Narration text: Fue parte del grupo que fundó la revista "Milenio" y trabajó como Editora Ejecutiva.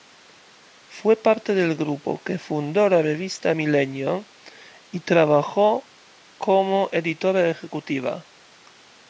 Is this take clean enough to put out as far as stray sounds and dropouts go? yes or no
yes